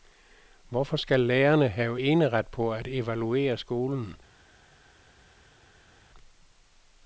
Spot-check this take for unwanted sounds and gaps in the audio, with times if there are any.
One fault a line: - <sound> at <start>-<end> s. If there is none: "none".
none